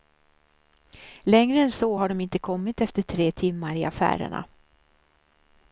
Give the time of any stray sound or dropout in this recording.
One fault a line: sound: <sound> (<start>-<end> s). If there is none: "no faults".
no faults